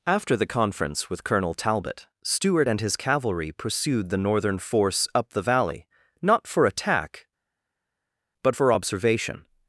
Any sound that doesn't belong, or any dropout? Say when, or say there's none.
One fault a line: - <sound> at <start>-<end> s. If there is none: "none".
none